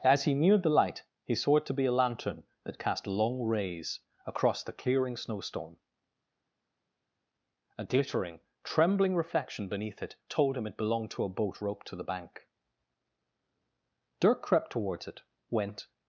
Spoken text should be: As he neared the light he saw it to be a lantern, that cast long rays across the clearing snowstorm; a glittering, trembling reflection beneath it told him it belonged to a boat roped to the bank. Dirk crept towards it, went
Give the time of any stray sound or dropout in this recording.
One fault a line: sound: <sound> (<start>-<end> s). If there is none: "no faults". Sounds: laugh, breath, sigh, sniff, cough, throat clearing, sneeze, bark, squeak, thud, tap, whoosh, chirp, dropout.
no faults